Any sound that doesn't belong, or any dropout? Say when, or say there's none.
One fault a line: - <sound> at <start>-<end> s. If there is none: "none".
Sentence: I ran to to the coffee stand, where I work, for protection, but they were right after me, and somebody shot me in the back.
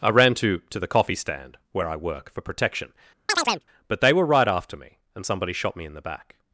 - chirp at 3.3-3.6 s